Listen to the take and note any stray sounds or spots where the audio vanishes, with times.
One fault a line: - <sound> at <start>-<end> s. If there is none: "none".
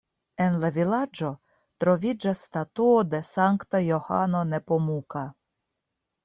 none